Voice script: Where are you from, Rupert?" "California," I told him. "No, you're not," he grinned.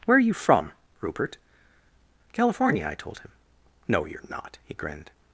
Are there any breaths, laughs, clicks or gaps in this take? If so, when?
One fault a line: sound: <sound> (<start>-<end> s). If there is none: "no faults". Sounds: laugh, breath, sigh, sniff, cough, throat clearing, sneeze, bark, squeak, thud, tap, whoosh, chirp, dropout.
no faults